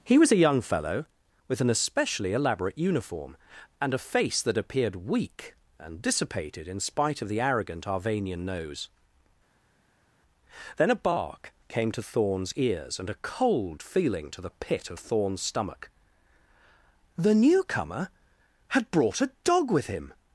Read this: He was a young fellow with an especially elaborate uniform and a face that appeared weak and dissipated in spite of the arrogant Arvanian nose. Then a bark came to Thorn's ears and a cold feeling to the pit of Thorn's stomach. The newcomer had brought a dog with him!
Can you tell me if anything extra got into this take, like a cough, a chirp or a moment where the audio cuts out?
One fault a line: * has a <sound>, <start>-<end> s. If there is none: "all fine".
all fine